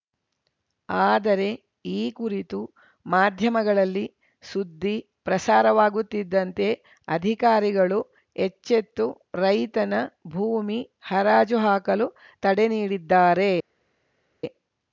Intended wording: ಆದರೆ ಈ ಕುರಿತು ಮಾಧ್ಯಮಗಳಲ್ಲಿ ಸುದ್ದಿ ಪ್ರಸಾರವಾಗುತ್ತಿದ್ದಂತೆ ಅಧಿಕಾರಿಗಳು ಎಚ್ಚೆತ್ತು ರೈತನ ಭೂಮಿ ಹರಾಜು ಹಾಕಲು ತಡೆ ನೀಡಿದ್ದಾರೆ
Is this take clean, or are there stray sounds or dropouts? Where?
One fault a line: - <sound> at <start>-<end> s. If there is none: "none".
none